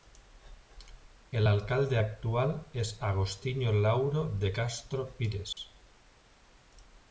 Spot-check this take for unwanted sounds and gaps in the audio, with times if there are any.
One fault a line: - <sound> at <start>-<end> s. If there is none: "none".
- dropout at 5.5-5.6 s